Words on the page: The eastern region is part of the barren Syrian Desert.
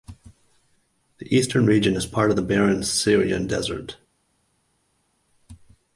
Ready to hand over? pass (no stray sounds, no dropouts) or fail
pass